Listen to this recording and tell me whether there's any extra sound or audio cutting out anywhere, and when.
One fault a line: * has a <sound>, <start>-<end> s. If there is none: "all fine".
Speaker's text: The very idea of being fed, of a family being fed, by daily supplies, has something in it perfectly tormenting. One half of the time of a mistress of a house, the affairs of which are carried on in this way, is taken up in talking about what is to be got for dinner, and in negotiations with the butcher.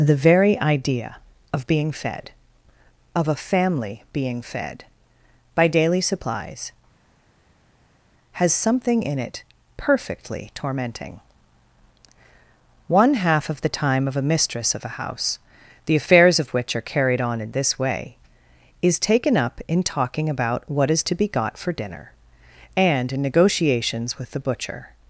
all fine